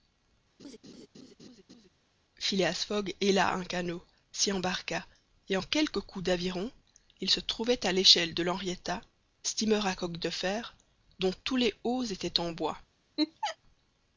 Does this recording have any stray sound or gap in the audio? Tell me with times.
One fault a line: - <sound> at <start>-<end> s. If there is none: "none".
- laugh at 0.6-1.9 s
- laugh at 13.2-13.6 s